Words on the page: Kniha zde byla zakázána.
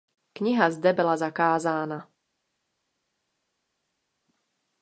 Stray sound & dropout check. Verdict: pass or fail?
pass